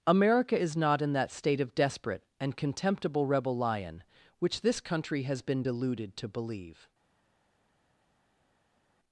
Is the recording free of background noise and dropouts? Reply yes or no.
yes